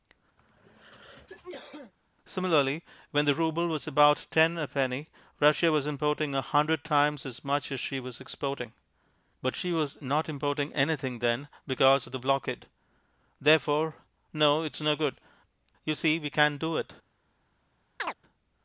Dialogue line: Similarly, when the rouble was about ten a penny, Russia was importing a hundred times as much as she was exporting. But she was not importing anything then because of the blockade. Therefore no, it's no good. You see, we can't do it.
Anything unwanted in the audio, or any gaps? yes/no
yes